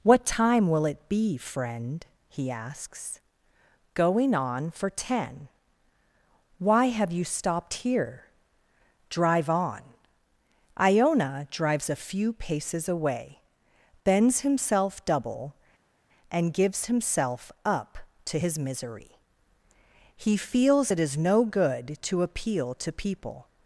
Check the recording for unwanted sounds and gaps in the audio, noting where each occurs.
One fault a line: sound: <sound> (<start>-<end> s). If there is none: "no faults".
no faults